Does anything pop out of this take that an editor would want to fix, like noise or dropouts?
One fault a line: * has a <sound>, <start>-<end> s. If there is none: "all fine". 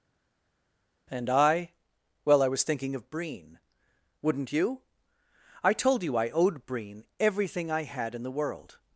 all fine